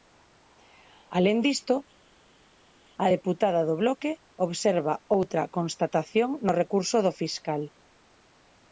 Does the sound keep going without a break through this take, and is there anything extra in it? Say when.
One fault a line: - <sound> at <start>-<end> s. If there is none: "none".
none